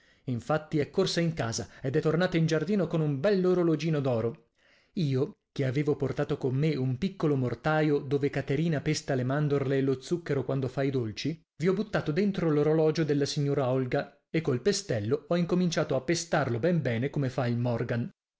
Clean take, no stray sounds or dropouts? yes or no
yes